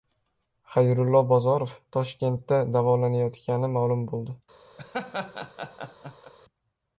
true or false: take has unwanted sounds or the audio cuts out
true